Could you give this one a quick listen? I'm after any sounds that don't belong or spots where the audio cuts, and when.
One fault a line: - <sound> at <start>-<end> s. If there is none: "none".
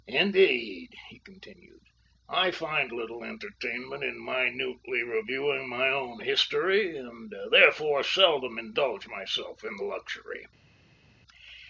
none